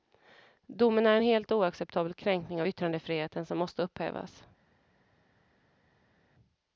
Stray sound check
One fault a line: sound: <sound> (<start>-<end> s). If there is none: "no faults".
no faults